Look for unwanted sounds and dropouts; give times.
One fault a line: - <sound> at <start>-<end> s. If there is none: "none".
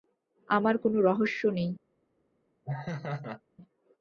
- laugh at 2.6-3.4 s